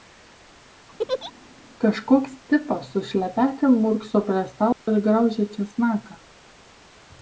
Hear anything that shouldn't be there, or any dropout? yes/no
yes